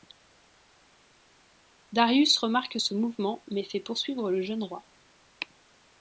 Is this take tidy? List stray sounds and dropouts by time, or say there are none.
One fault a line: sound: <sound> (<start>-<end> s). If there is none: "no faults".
no faults